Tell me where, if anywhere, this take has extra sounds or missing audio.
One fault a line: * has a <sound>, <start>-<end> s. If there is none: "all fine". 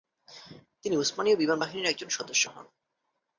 all fine